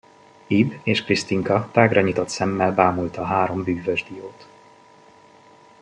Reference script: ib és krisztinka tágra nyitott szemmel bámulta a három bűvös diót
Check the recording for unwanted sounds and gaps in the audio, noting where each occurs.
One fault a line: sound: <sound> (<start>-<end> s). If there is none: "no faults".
no faults